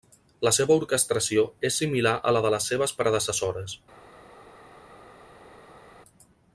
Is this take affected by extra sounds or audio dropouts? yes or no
no